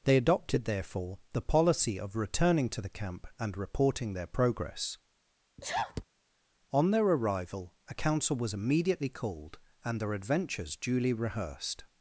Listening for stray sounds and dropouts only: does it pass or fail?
fail